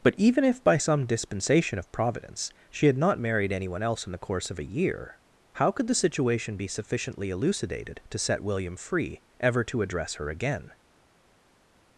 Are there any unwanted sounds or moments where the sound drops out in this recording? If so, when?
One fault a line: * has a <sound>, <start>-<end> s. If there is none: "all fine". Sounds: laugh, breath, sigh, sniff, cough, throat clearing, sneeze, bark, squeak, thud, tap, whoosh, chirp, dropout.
all fine